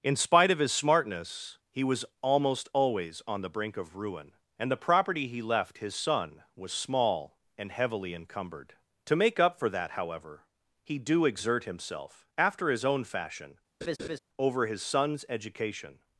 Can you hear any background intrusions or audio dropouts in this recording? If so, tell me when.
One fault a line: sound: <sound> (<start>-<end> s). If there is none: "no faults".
sound: laugh (13.8-14.2 s)